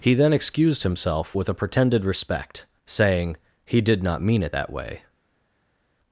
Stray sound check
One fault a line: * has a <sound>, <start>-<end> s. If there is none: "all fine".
all fine